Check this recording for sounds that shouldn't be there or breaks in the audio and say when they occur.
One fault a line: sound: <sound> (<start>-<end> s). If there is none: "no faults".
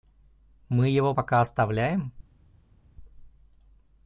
no faults